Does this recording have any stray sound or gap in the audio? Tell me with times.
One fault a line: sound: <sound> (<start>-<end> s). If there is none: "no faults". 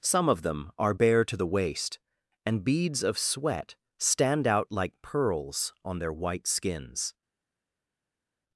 no faults